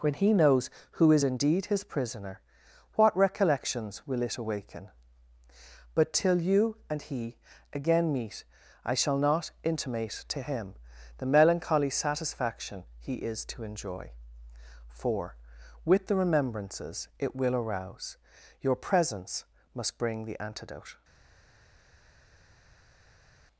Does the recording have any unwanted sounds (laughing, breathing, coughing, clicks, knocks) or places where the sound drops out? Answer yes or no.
no